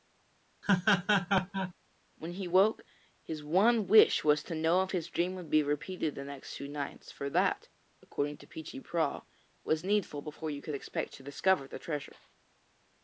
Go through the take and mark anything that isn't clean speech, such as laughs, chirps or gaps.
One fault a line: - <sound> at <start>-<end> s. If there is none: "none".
- laugh at 0.6-1.7 s